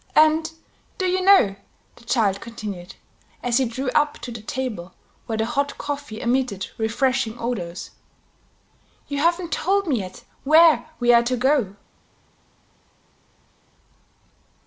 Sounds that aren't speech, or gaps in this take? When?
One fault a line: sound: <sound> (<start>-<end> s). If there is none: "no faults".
no faults